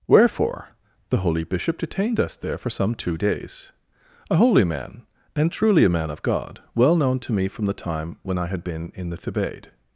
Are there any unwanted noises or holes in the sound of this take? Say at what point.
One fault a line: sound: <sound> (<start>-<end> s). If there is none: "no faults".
no faults